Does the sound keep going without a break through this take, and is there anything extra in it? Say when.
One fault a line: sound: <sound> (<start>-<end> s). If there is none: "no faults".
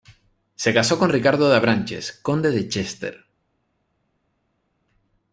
no faults